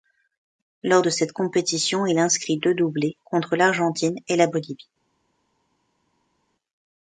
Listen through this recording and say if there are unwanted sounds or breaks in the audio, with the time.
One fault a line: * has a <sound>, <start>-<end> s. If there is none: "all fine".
all fine